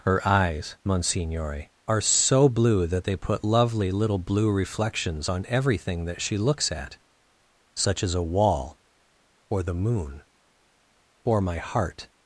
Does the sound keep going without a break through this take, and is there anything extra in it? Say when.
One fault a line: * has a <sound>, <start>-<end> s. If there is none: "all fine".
all fine